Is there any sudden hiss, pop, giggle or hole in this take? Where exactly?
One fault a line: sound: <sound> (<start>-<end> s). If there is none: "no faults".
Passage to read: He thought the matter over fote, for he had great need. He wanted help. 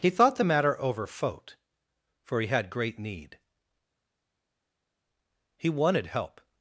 no faults